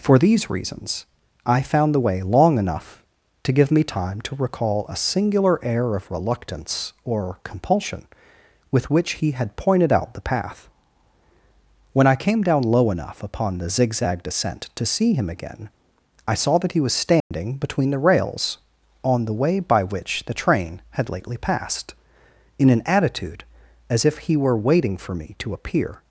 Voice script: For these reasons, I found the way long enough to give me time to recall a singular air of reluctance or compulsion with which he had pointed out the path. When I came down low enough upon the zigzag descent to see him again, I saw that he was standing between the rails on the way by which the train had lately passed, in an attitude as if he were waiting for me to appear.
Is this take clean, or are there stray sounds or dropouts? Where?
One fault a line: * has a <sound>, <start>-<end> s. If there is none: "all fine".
* has a dropout, 17.2-17.3 s